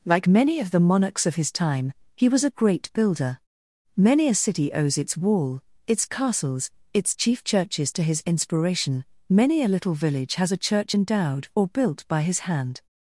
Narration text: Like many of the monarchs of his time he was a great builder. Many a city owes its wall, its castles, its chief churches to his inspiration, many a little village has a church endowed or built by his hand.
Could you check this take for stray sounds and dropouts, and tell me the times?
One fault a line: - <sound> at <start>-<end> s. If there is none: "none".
none